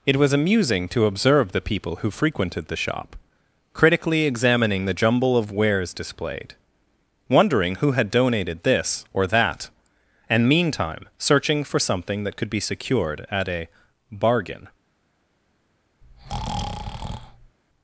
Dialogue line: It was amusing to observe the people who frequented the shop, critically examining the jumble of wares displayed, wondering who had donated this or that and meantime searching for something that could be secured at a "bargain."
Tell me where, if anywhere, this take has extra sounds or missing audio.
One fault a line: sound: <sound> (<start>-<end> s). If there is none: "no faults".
sound: breath (16.0-17.6 s)